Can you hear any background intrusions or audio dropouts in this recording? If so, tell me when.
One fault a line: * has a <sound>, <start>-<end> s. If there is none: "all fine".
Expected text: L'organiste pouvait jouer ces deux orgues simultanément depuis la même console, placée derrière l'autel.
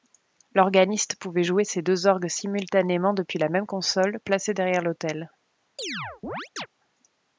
* has a chirp, 5.8-6.7 s